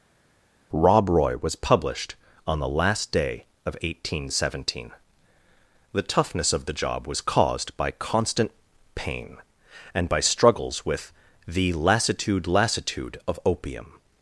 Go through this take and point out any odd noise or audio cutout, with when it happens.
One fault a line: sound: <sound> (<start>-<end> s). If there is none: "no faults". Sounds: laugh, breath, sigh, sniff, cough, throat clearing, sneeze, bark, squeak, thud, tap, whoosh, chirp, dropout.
no faults